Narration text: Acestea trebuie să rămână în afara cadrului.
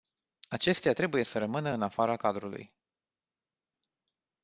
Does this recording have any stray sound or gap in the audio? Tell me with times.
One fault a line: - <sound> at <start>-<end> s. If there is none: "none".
none